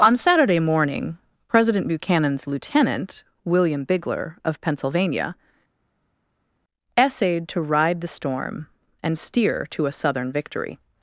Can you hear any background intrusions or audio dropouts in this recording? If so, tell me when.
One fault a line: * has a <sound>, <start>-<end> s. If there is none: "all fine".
all fine